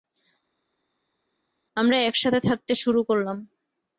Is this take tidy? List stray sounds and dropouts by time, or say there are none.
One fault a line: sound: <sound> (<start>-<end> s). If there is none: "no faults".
no faults